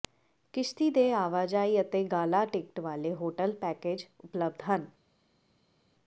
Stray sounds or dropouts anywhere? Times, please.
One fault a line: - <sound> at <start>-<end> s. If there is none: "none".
none